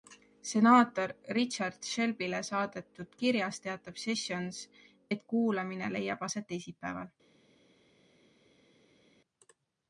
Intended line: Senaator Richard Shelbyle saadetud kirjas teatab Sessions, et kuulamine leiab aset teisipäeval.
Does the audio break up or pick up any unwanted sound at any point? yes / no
no